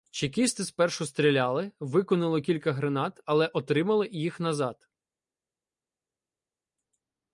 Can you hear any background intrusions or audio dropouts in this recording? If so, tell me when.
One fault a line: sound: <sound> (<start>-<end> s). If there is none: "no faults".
no faults